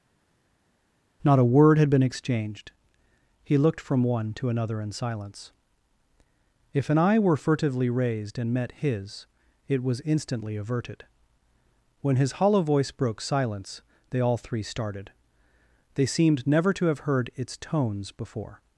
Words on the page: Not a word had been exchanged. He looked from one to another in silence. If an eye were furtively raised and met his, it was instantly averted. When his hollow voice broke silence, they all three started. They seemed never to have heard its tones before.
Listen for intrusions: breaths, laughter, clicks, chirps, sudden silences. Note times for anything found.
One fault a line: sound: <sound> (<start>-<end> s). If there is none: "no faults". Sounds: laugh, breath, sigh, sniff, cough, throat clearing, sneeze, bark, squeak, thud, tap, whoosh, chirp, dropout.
no faults